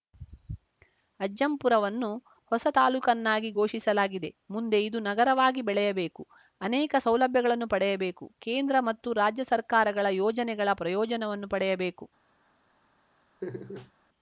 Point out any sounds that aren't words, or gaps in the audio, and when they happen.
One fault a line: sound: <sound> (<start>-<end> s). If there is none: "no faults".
sound: laugh (13.4-13.9 s)